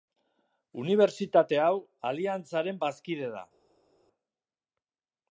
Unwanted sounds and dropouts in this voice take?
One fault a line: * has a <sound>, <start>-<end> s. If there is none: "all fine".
all fine